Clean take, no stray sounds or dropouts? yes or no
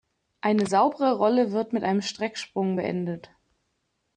yes